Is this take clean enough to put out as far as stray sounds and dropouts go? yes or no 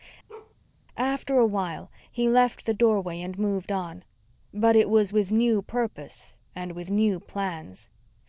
no